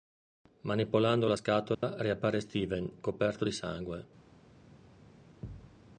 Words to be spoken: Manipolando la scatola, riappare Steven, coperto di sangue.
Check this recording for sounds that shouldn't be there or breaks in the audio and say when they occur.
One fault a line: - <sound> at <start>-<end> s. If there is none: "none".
- dropout at 1.7-1.8 s
- thud at 5.4-5.8 s